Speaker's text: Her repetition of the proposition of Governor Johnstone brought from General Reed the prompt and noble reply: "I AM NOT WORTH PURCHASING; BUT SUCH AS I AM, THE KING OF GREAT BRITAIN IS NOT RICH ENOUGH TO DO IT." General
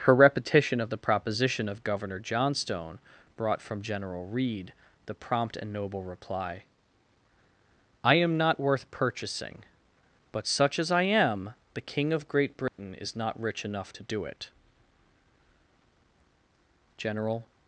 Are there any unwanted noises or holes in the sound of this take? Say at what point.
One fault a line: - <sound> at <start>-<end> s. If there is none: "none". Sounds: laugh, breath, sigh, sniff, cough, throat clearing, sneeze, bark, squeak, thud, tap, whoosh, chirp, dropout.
- dropout at 12.7-12.8 s